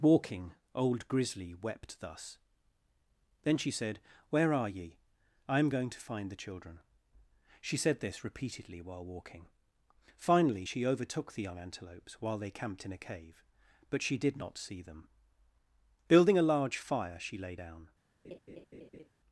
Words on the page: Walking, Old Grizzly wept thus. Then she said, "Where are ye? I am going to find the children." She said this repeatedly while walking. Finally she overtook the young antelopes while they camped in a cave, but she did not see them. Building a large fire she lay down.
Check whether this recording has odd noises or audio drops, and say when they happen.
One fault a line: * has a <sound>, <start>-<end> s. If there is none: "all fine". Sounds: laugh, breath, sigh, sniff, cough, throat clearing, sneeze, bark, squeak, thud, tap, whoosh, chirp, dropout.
* has a laugh, 18.2-19.1 s